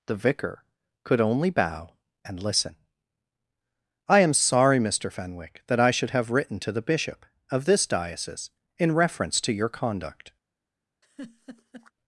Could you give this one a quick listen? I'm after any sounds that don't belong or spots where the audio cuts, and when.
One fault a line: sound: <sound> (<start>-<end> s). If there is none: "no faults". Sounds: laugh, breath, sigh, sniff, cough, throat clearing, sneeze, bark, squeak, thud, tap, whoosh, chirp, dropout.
sound: laugh (11.0-11.9 s)